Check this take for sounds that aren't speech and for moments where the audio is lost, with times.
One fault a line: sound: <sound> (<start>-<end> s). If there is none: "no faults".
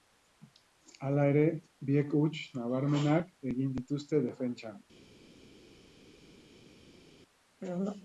no faults